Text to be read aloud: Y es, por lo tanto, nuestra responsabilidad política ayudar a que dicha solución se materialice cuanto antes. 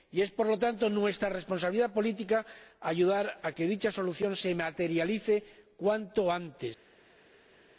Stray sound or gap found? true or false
false